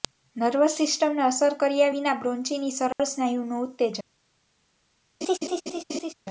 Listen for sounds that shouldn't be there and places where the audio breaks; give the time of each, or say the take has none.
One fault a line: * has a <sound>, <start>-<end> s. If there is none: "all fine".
* has a dropout, 2.9-3.0 s
* has a laugh, 5.2-6.1 s